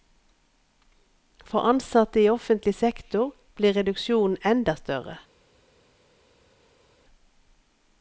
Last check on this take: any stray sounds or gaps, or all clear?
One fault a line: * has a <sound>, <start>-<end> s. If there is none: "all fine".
all fine